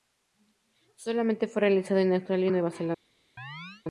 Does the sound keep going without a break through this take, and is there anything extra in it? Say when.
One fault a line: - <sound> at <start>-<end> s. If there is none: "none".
- chirp at 3.4-3.8 s